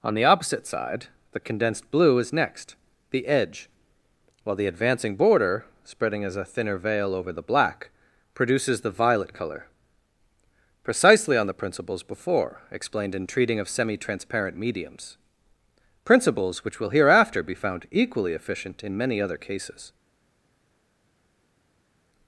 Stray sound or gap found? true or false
false